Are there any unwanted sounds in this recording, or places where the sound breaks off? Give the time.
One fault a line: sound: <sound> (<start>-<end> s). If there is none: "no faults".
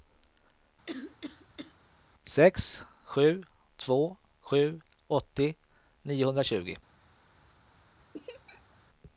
sound: cough (0.9-1.7 s)
sound: laugh (8.1-8.8 s)